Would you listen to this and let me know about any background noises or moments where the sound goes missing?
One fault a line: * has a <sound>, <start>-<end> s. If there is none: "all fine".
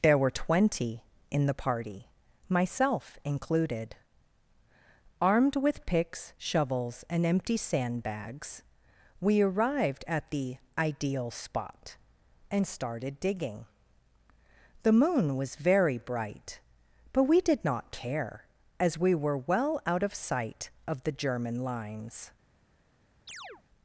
* has a chirp, 23.3-23.6 s